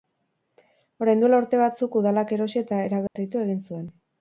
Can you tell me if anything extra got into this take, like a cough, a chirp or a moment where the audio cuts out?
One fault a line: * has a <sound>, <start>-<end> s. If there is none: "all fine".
* has a dropout, 3.1-3.2 s